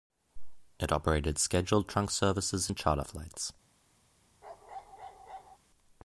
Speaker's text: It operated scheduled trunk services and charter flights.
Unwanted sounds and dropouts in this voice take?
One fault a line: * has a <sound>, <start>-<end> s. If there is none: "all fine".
* has a bark, 4.4-5.6 s